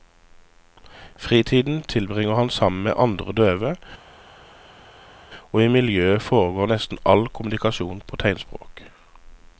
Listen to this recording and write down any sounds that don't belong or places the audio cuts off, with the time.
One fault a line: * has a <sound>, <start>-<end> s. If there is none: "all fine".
all fine